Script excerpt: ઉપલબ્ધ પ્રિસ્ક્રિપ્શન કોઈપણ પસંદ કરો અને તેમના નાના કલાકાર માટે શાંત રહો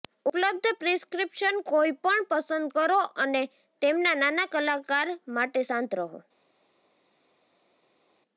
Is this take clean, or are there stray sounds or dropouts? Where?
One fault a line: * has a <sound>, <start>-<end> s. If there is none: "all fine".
all fine